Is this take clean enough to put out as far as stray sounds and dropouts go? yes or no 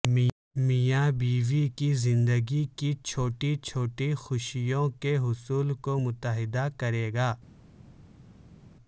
yes